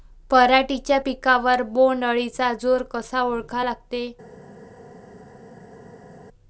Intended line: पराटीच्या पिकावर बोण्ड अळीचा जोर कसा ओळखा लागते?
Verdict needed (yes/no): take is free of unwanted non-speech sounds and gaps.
yes